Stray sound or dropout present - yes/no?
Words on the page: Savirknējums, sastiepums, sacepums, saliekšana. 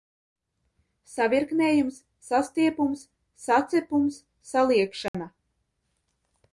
yes